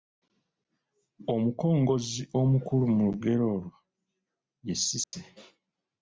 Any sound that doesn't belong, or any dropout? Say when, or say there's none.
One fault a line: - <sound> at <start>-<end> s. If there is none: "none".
- dropout at 5.0-5.1 s